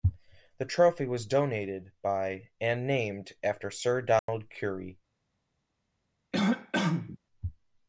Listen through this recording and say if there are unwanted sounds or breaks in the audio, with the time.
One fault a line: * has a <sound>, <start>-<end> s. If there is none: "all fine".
* has a dropout, 4.2-4.3 s
* has a cough, 6.3-7.2 s